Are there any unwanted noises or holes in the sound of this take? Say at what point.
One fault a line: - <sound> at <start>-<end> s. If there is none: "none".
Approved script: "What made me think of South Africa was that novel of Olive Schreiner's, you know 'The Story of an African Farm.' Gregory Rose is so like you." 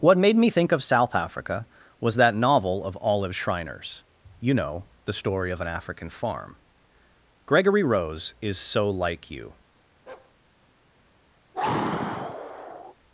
- bark at 10.1-10.3 s
- sigh at 11.5-13.0 s